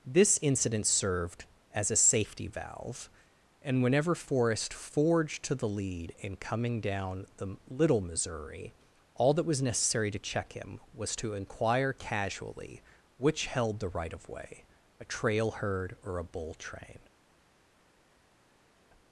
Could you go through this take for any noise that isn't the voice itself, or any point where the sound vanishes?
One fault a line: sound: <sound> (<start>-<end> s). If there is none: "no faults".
no faults